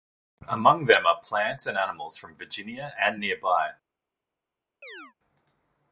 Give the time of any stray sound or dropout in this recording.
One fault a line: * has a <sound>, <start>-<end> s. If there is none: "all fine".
* has a chirp, 4.8-5.1 s